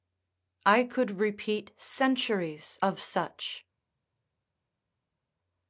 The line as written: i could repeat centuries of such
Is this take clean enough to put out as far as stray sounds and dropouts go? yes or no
yes